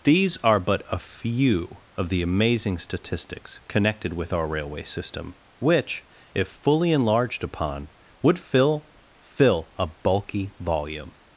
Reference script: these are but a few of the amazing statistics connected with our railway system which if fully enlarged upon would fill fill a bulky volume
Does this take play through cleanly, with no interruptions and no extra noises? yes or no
yes